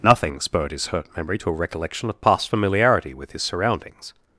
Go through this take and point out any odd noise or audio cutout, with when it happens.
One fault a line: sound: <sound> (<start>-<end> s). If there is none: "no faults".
no faults